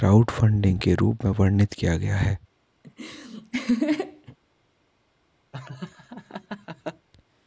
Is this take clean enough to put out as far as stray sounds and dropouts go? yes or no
no